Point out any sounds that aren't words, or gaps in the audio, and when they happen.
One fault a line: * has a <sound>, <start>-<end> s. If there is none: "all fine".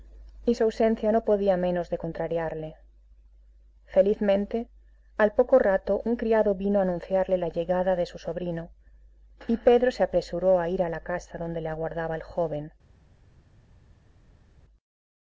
all fine